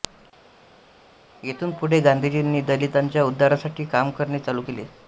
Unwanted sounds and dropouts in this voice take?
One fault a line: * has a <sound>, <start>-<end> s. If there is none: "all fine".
all fine